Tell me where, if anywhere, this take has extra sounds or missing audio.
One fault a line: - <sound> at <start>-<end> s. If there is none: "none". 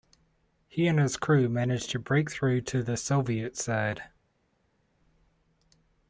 none